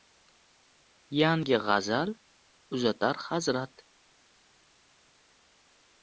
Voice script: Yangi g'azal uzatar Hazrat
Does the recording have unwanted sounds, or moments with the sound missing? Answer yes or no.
no